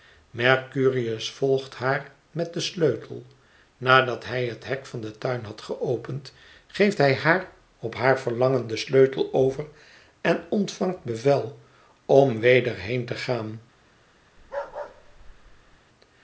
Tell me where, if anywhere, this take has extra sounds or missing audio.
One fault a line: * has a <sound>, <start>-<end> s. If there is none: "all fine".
* has a bark, 14.4-15.8 s